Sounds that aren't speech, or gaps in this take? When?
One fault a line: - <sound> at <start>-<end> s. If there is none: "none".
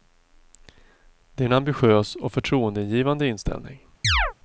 - chirp at 4.0-4.3 s